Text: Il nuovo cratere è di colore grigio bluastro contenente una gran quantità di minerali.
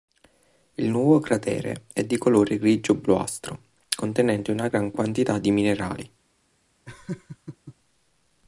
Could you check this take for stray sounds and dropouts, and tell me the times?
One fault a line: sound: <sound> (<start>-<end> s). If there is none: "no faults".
sound: laugh (6.9-7.8 s)